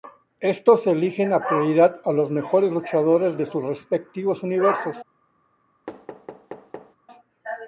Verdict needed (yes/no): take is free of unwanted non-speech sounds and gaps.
no